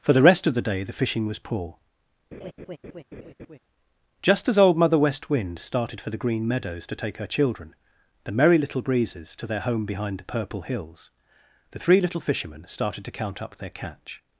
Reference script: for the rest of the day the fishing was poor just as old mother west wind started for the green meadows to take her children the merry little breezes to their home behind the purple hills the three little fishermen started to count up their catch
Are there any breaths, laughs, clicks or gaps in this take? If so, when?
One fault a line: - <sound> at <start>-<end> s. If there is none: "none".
- laugh at 2.3-3.6 s